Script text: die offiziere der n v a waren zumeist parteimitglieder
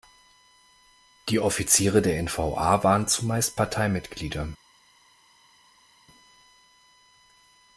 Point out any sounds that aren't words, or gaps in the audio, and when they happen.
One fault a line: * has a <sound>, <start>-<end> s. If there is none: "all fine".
all fine